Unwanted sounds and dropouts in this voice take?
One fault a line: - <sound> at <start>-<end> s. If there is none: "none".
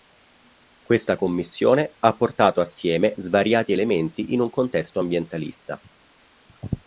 none